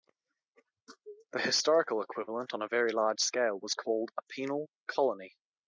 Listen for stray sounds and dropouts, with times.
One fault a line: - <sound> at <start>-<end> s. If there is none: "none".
none